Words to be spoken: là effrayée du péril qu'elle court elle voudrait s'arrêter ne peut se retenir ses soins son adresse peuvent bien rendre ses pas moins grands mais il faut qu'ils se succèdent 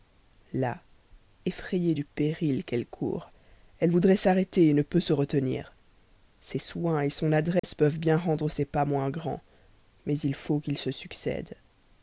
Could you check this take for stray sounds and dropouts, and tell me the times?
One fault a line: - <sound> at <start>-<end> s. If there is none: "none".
- dropout at 7.6-7.6 s